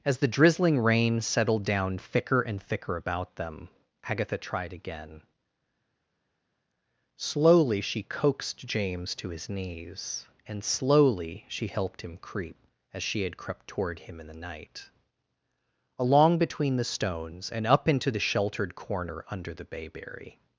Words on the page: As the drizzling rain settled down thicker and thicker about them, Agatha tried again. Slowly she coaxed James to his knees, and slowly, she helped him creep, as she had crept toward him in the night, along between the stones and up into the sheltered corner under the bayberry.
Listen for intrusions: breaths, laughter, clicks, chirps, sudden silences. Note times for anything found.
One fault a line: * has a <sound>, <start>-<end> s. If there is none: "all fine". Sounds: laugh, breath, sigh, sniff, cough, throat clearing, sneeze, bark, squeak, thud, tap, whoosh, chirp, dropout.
all fine